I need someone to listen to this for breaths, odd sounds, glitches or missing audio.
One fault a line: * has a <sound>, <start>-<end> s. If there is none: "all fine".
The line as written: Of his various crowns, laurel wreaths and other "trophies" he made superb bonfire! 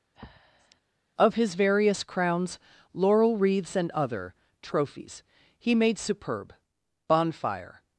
* has a breath, 0.1-0.8 s